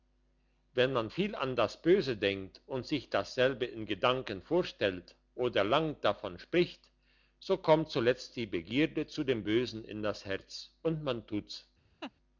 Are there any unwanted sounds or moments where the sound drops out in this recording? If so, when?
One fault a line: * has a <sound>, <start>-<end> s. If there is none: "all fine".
* has a laugh, 12.0-12.1 s